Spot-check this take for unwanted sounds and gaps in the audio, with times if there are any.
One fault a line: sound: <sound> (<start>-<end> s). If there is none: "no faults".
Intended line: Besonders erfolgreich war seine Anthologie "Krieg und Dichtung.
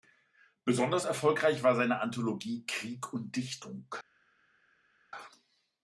no faults